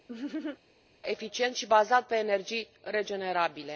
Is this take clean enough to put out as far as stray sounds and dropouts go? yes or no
no